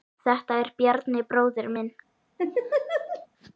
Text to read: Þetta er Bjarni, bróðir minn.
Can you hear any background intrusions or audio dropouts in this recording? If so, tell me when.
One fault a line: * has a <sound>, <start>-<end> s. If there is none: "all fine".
* has a laugh, 2.4-3.3 s